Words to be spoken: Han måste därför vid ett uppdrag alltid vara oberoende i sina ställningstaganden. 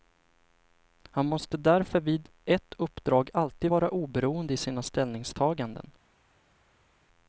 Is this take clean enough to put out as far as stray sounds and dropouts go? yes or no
yes